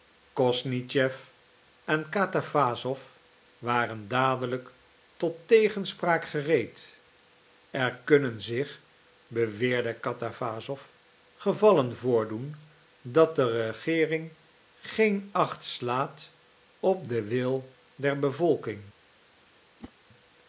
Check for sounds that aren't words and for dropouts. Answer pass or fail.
fail